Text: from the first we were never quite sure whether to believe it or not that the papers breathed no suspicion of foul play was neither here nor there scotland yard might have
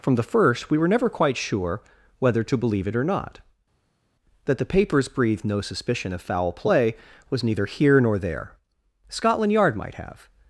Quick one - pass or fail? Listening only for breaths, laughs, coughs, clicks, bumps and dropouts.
pass